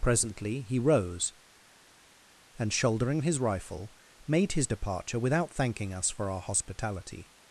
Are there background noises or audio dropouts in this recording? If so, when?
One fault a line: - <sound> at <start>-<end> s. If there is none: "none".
none